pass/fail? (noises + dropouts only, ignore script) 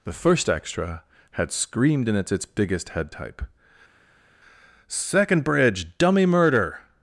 pass